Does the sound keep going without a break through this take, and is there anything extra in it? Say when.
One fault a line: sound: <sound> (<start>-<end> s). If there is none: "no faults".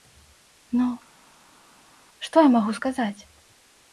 no faults